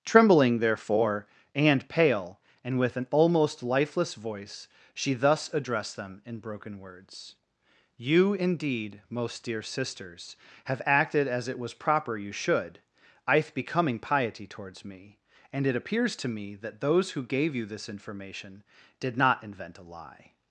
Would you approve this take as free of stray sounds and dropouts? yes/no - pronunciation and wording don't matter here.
yes